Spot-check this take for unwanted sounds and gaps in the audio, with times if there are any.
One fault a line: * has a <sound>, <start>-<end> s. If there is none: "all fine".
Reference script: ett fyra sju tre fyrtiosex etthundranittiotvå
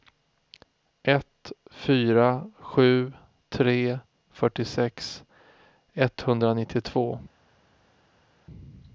all fine